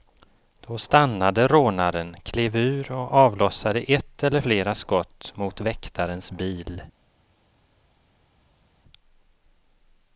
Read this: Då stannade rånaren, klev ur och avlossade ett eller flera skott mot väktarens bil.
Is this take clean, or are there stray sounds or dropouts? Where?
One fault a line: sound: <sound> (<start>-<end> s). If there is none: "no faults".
no faults